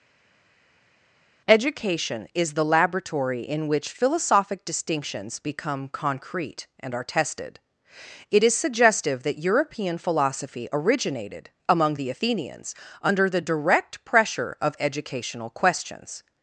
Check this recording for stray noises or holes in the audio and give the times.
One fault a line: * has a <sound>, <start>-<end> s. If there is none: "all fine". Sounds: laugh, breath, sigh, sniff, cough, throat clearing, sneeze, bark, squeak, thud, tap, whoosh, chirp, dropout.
all fine